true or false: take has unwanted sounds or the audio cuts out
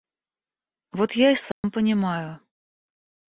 true